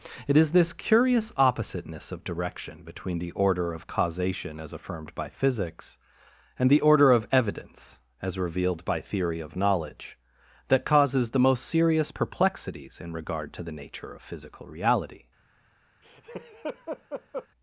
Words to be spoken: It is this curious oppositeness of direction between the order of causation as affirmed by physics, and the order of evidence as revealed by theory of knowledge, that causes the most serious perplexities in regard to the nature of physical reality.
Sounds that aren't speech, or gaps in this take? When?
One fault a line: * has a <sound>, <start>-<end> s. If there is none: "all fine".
* has a laugh, 16.0-17.5 s